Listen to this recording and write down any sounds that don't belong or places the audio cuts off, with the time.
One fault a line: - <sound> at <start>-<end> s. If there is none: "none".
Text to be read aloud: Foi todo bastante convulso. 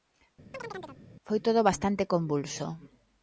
- chirp at 0.5-1.0 s